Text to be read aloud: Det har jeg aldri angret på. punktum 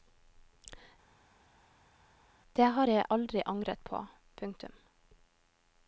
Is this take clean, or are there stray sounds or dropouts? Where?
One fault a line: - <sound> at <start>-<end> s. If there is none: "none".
none